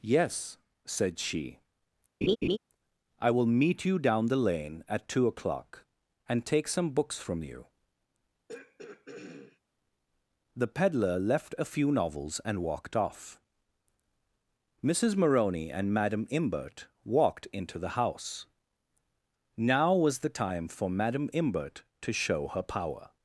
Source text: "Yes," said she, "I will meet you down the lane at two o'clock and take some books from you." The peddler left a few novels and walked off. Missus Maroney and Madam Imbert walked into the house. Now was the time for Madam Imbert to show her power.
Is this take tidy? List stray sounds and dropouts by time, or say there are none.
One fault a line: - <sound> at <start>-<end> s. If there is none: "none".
- laugh at 2.2-2.6 s
- throat clearing at 8.5-9.6 s